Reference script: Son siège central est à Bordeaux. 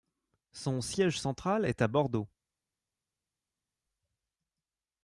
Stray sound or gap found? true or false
false